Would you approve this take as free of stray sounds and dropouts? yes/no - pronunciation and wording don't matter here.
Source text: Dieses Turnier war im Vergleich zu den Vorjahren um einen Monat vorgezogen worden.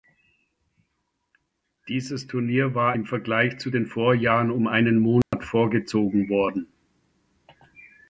no